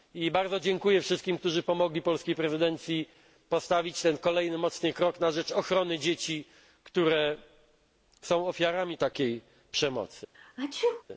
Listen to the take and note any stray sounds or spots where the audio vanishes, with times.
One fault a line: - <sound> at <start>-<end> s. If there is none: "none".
- sneeze at 10.3-11.0 s